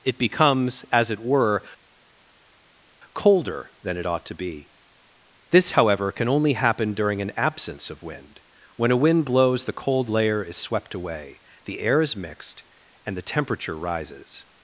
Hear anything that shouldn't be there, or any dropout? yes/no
no